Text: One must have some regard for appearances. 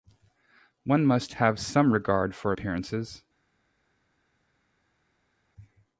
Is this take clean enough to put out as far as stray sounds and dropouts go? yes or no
yes